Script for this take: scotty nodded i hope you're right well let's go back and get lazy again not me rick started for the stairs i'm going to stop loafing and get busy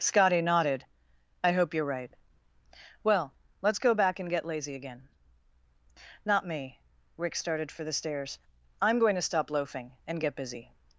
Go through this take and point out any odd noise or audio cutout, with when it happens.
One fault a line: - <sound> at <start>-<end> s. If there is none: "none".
none